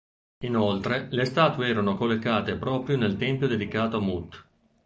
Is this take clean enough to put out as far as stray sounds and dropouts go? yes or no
yes